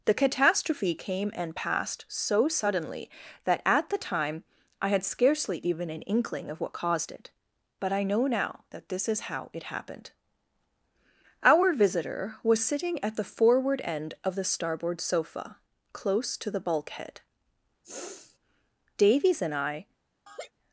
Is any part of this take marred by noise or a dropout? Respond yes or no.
yes